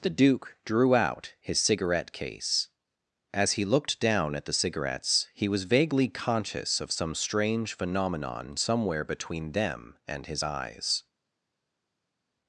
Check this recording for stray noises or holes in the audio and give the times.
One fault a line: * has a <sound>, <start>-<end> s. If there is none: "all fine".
all fine